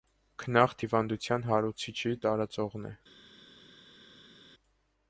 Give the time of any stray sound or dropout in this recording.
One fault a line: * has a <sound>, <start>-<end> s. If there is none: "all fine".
all fine